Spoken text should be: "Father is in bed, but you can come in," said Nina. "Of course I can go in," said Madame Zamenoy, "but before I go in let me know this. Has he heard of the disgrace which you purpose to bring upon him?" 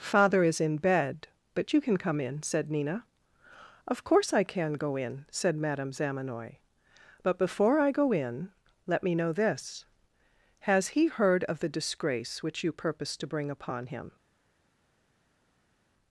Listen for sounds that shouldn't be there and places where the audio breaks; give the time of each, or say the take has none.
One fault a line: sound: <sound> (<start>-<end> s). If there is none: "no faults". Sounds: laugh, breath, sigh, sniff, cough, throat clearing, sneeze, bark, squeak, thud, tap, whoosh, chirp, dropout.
no faults